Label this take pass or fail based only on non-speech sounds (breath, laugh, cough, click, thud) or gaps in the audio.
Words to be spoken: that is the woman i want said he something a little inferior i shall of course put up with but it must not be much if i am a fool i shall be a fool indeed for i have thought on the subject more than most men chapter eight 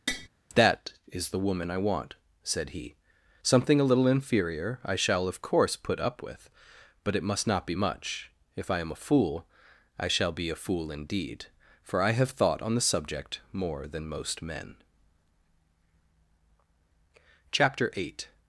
fail